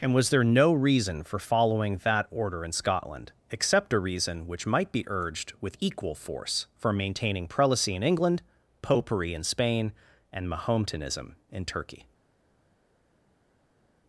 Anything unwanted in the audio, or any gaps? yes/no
no